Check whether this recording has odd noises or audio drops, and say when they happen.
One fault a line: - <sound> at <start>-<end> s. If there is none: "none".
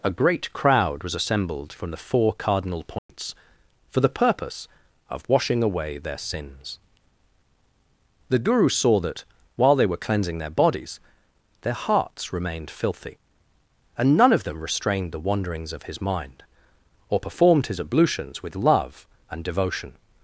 - dropout at 3.0-3.1 s